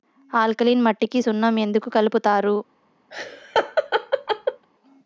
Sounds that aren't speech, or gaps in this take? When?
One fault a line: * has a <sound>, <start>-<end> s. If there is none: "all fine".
* has a laugh, 3.1-4.7 s